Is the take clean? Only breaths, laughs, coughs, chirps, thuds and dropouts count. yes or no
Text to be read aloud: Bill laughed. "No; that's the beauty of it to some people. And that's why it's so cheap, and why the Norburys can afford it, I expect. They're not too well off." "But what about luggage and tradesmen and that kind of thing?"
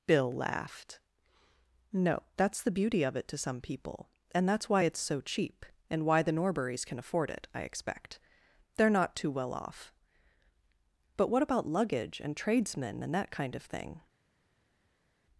yes